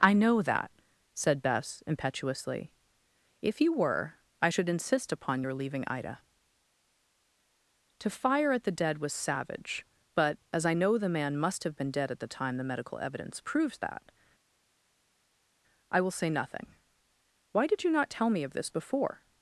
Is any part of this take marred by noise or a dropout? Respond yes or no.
no